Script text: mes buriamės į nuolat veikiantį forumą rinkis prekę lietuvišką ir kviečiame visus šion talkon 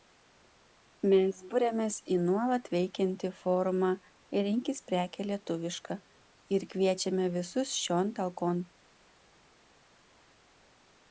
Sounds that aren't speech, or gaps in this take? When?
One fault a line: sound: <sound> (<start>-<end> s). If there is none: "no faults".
no faults